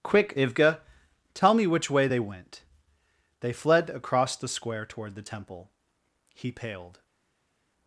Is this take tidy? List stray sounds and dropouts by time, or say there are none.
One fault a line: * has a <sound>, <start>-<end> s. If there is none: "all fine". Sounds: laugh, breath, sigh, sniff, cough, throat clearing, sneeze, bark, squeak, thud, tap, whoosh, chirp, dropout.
all fine